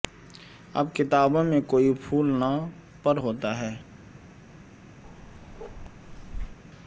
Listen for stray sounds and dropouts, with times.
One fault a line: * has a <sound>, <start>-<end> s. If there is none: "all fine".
* has a bark, 5.0-6.6 s